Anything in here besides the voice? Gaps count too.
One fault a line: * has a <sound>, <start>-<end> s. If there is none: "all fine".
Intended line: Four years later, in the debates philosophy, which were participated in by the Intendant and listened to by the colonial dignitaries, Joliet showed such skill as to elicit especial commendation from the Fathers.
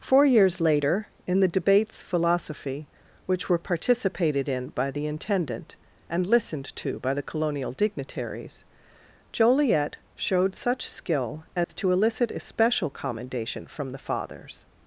* has a dropout, 11.6-11.7 s